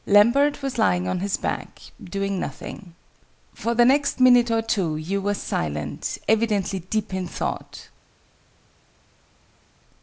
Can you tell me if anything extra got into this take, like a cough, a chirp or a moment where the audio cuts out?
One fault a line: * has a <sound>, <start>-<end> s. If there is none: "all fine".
all fine